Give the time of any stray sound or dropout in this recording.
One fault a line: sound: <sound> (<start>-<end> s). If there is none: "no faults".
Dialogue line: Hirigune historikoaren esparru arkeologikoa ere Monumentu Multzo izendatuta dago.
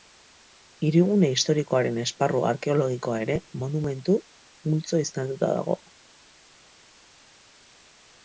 no faults